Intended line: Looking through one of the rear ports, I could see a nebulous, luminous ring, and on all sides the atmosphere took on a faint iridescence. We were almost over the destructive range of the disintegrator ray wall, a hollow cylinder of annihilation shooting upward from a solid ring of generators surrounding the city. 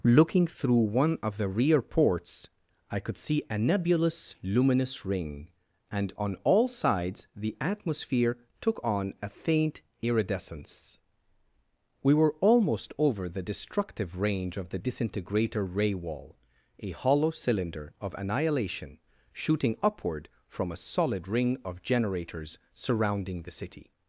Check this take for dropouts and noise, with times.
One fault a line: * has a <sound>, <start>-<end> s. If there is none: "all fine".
all fine